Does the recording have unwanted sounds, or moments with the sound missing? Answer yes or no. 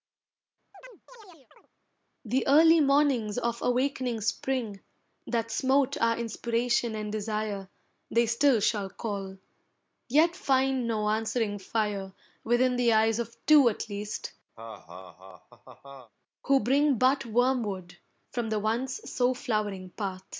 yes